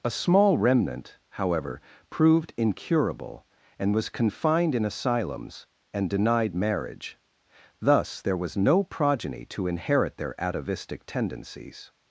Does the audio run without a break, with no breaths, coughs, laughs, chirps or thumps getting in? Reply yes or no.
yes